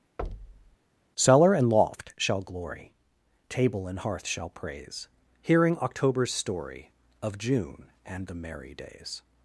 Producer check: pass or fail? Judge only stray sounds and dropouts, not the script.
fail